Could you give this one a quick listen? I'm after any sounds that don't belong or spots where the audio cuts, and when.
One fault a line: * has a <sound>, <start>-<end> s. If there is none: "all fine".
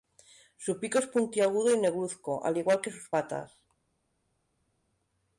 all fine